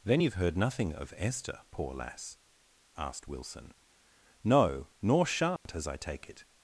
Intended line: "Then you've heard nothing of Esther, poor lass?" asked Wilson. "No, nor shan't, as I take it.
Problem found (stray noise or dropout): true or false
true